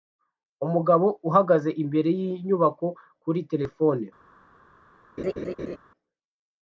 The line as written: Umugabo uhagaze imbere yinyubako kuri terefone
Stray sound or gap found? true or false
true